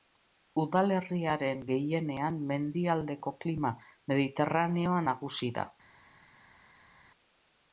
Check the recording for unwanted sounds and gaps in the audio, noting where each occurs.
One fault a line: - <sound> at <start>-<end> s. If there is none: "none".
none